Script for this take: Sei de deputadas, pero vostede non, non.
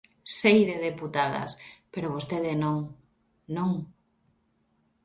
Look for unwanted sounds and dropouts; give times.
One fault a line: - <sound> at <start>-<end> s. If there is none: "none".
none